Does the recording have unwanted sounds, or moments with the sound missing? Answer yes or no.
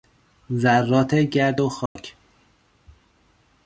yes